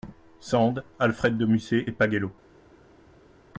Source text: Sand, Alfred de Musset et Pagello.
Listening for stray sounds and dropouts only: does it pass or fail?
pass